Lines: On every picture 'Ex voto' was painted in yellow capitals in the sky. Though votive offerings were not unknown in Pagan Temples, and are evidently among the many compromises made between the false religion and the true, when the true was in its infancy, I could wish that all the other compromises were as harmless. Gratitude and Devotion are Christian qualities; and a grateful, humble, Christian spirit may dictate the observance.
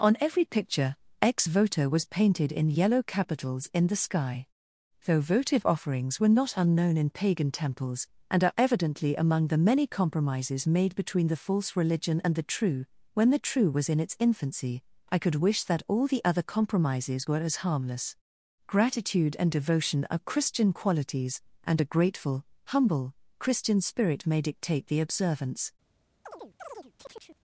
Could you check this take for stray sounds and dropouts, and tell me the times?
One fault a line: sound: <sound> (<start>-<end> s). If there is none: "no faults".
sound: chirp (26.2-27.4 s)